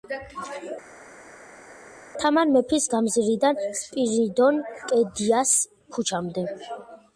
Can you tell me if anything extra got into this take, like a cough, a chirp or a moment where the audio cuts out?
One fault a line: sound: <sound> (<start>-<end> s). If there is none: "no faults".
no faults